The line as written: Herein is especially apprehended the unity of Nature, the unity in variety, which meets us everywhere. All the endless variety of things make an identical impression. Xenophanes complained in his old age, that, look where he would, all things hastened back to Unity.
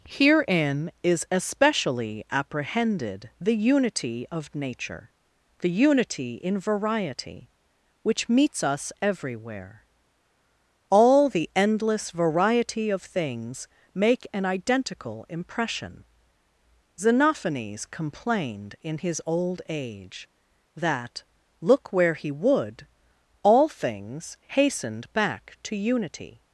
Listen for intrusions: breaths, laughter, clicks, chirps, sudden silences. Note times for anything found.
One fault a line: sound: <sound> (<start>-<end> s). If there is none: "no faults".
no faults